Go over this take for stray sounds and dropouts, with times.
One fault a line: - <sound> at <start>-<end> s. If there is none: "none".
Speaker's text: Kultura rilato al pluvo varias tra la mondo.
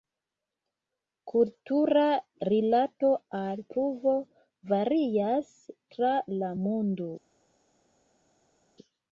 none